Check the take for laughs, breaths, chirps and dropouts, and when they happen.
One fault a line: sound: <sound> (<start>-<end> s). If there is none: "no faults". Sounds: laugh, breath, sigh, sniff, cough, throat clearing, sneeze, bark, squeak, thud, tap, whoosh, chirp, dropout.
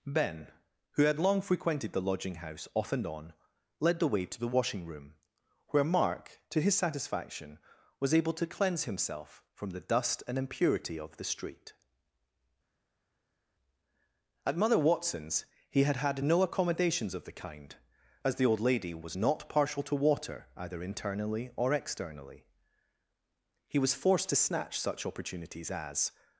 no faults